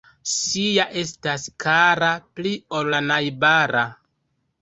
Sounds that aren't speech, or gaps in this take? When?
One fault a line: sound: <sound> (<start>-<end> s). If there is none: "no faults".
no faults